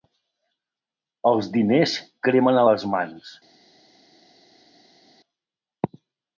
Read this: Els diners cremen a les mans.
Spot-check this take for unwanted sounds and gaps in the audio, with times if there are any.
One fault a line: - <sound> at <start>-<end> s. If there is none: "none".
none